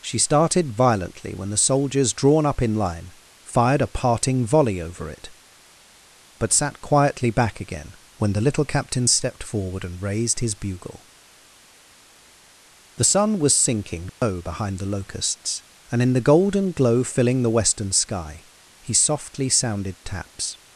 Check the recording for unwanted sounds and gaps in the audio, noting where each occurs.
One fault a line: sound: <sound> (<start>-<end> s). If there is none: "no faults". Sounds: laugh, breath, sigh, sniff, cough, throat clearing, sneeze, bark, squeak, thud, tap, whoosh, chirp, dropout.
sound: dropout (14.1-14.2 s)